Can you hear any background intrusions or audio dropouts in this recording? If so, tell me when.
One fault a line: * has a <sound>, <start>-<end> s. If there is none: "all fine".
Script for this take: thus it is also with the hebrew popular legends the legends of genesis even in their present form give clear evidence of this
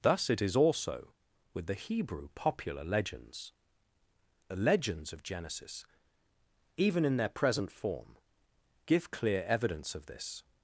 all fine